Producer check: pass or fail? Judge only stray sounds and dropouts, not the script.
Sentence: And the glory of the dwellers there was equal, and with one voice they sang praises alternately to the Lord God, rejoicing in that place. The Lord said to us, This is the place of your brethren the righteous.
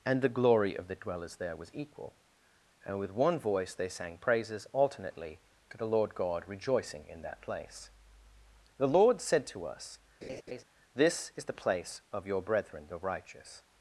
fail